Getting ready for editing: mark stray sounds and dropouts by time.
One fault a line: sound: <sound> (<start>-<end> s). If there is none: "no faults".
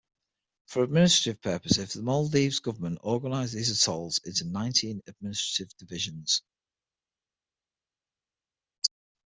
no faults